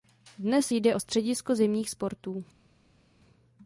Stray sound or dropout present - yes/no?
no